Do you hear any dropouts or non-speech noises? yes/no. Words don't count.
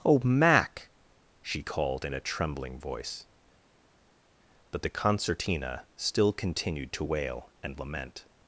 no